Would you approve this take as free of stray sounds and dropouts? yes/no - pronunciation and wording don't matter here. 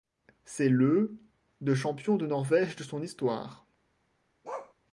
no